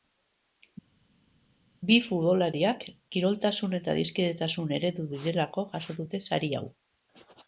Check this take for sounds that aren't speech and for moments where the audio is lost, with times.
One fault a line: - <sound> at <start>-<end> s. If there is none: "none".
none